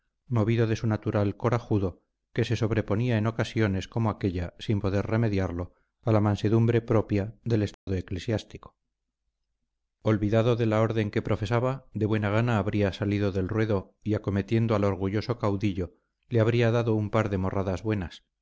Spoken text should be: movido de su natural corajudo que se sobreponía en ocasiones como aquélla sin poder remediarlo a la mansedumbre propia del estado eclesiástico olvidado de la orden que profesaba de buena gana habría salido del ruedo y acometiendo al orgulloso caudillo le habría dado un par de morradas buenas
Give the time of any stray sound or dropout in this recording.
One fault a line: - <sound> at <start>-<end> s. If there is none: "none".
- dropout at 7.7-7.9 s